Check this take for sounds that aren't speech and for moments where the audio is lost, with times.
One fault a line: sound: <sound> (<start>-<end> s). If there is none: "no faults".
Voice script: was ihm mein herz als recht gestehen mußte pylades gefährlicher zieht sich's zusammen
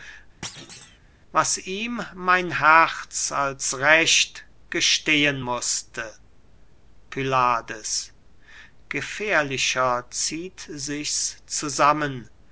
sound: thud (0.4-1.0 s)